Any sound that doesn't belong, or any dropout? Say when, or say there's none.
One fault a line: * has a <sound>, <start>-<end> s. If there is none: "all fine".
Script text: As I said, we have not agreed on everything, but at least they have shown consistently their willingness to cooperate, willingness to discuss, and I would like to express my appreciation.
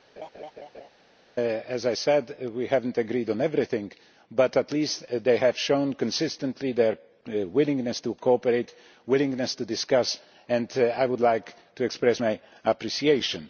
* has a laugh, 0.2-0.9 s